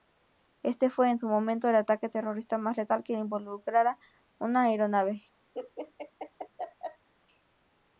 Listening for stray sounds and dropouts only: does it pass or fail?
fail